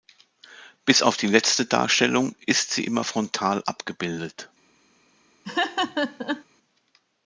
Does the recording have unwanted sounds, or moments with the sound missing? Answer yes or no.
yes